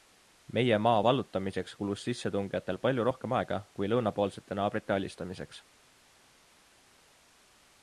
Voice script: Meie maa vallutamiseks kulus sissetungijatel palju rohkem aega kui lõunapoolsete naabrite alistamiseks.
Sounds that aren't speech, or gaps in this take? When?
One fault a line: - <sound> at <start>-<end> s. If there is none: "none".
none